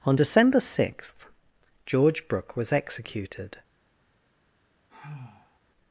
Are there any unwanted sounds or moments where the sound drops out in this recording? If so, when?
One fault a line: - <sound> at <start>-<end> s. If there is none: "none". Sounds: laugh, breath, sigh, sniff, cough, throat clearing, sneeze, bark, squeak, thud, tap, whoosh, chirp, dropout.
- sigh at 4.9-5.6 s